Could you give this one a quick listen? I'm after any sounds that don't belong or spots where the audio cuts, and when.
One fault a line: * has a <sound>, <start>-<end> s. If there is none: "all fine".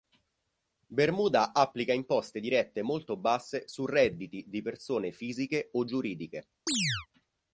* has a chirp, 6.7-7.1 s